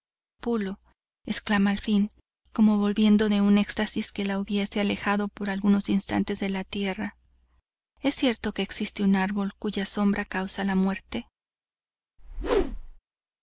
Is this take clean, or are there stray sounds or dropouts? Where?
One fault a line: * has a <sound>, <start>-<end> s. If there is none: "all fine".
* has a whoosh, 12.2-13.0 s